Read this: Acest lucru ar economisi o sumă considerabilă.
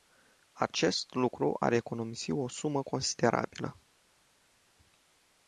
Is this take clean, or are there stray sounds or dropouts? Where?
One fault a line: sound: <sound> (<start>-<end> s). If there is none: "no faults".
no faults